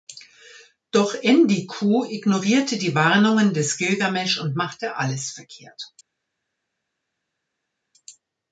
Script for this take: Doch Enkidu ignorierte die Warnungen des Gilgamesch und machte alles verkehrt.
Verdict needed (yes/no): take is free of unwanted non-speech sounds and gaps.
yes